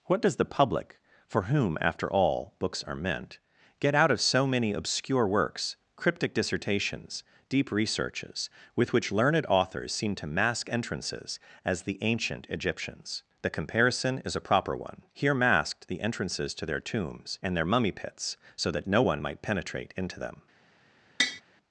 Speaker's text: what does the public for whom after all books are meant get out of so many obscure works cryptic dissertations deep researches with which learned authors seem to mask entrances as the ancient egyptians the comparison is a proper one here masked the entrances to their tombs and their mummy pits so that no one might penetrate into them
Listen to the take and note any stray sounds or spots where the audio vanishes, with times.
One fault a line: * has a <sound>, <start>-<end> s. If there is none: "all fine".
* has a tap, 21.2-21.4 s